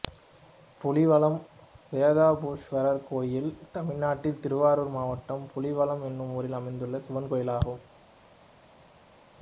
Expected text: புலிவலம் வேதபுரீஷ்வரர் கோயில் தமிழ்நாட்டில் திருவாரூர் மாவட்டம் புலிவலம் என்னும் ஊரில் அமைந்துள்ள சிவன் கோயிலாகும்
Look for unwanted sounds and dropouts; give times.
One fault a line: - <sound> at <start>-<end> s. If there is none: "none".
none